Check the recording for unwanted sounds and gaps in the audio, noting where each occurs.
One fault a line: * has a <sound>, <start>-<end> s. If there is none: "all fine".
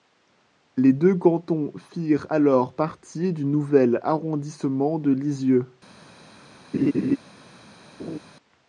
* has a laugh, 6.7-7.2 s
* has a laugh, 8.0-8.2 s